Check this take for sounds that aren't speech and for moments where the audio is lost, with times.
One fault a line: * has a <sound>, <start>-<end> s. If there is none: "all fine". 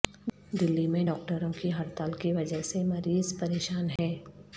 * has a dropout, 4.0-4.0 s